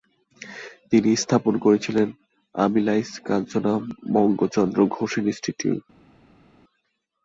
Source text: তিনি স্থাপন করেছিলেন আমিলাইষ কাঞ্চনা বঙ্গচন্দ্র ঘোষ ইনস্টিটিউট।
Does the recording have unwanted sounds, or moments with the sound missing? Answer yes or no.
no